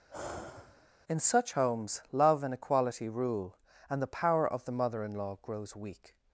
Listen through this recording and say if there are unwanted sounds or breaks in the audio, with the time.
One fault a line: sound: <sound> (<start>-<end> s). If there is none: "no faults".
sound: sigh (0.1-0.9 s)